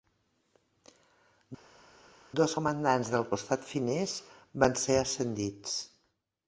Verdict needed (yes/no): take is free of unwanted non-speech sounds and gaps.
yes